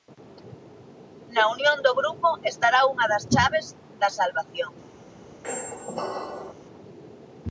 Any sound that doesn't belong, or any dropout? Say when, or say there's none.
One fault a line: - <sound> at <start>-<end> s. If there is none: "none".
- squeak at 5.4-6.5 s